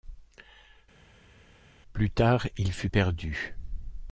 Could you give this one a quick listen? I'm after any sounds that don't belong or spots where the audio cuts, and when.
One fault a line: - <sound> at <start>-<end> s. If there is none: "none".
none